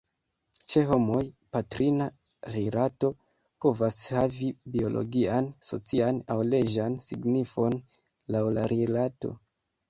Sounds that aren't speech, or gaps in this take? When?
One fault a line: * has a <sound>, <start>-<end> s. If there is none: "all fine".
all fine